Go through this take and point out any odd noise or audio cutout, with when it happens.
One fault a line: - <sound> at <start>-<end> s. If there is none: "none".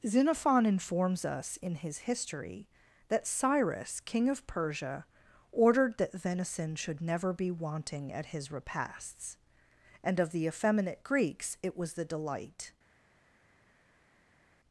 none